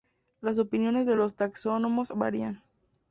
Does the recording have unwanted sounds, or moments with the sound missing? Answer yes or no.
no